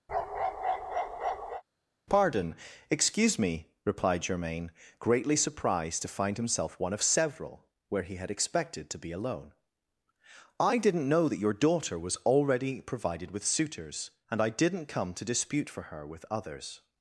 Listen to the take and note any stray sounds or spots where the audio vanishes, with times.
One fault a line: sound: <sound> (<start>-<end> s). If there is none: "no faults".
sound: bark (0.1-1.6 s)